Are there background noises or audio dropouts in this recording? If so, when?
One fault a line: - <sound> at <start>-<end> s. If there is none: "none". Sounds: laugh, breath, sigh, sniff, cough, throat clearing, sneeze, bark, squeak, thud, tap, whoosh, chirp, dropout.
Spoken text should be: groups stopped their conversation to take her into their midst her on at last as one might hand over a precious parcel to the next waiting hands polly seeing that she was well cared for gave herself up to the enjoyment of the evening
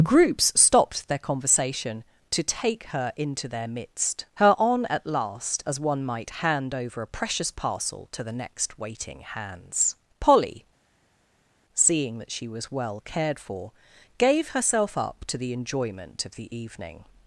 none